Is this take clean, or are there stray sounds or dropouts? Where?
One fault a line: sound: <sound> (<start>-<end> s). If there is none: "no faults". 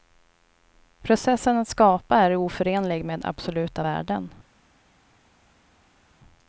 no faults